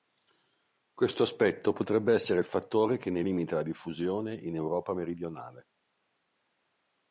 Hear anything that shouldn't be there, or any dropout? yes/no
no